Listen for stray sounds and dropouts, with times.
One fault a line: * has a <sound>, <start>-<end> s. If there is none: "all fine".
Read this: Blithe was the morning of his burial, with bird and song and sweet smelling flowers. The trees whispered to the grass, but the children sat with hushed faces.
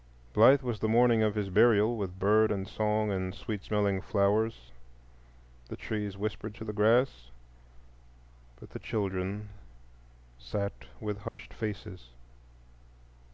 * has a dropout, 11.3-11.4 s